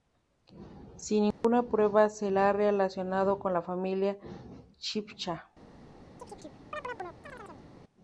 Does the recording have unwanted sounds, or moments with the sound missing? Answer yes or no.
yes